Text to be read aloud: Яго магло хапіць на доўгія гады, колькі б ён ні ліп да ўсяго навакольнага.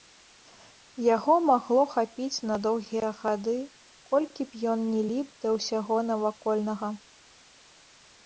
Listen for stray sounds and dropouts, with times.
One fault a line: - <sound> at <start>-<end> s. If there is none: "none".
none